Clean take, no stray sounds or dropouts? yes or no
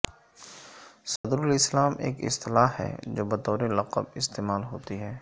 no